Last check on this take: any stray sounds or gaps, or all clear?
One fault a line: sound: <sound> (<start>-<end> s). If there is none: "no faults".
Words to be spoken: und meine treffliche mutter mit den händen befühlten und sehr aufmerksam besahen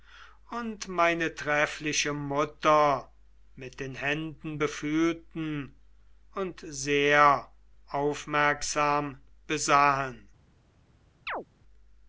sound: chirp (11.3-11.5 s)